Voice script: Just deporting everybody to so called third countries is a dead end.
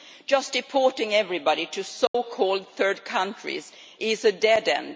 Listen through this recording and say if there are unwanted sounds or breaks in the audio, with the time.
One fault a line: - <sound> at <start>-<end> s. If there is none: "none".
- dropout at 2.1-2.1 s